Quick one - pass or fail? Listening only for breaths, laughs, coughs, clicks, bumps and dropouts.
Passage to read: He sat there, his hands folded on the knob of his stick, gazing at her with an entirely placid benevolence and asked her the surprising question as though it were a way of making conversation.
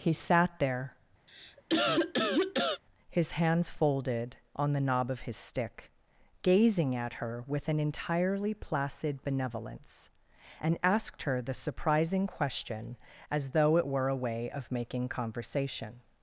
fail